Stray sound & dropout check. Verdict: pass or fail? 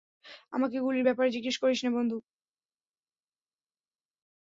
pass